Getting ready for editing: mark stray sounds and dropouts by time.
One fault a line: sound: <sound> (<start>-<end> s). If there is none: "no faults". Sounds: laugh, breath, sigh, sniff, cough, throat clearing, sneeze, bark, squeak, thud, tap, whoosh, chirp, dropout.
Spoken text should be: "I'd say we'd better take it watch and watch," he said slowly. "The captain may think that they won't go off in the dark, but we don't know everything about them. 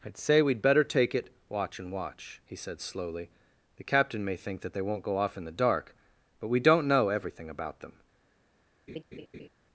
sound: laugh (8.9-9.5 s)